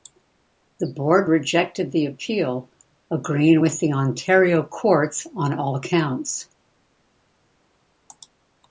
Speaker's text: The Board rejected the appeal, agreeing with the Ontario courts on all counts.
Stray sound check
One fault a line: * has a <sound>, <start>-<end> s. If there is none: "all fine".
all fine